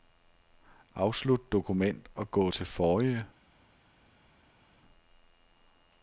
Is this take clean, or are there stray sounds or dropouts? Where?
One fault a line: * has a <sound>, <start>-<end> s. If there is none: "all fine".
all fine